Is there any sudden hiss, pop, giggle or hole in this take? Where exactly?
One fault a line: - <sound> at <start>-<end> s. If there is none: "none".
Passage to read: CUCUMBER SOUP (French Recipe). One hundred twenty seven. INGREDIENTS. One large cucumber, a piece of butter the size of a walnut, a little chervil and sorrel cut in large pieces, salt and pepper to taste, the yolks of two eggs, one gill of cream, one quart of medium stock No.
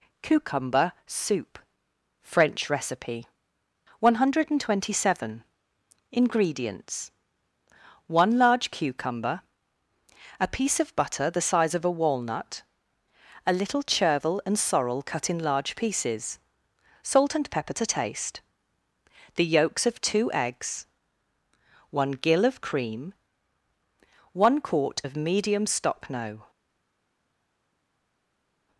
none